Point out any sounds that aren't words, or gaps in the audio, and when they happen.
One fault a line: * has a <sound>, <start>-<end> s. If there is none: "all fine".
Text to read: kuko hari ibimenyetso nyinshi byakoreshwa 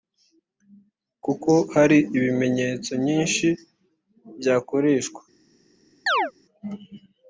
* has a chirp, 6.1-6.3 s